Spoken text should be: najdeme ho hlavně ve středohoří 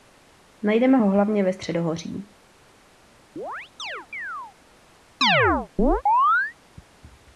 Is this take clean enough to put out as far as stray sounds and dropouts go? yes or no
no